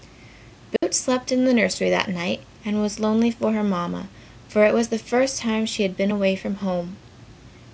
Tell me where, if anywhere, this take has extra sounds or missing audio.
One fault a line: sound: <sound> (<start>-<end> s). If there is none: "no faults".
sound: dropout (0.8-0.8 s)